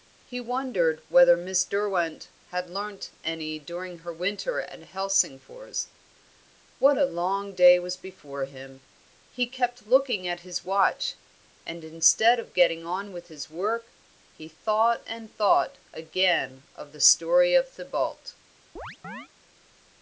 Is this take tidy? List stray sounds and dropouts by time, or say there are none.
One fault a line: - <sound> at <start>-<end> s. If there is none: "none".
- chirp at 18.8-19.3 s